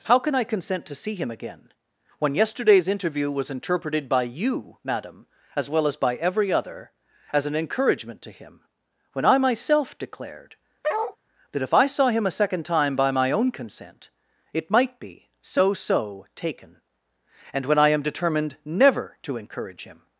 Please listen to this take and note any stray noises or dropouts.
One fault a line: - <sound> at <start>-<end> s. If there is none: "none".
- bark at 10.8-11.2 s